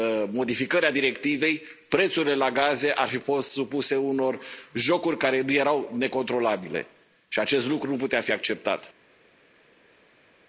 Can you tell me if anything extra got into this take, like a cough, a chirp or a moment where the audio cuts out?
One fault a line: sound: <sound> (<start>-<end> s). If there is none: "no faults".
no faults